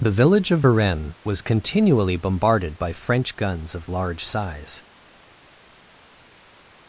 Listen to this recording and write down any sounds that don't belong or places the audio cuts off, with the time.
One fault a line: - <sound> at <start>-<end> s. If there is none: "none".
none